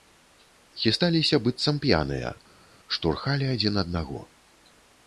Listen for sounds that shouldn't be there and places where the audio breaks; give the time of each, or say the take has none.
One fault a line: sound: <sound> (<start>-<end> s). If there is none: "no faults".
no faults